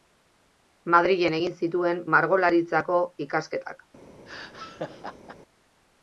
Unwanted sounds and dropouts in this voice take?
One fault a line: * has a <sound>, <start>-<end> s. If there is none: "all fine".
* has a laugh, 4.3-5.4 s